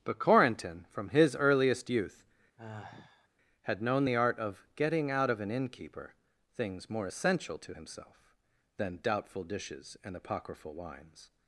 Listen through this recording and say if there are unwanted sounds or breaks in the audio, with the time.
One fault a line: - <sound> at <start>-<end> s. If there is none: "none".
- sigh at 2.6-3.3 s